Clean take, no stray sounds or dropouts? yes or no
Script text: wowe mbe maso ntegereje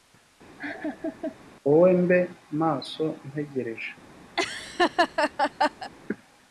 no